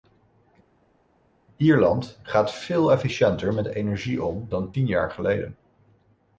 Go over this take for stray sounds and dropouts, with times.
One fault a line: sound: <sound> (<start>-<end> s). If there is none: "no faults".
no faults